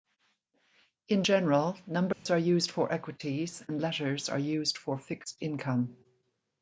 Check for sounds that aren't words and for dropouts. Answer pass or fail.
fail